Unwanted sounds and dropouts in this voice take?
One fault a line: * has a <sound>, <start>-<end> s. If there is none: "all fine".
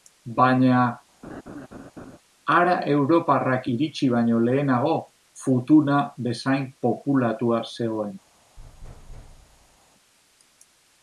* has a laugh, 1.2-2.2 s
* has a thud, 8.6-9.8 s